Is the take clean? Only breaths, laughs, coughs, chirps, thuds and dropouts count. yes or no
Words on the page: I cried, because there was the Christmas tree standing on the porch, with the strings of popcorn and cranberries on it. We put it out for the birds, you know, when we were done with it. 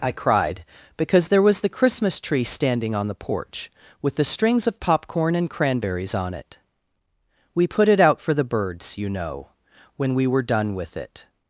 yes